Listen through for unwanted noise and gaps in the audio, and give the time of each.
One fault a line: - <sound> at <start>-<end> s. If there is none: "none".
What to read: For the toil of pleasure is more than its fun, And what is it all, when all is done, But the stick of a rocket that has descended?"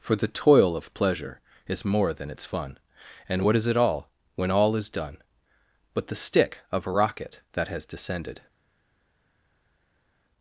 none